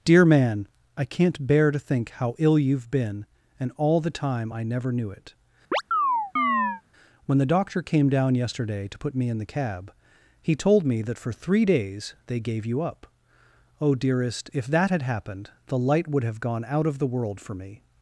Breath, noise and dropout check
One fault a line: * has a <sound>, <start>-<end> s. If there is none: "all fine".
* has a chirp, 5.7-6.8 s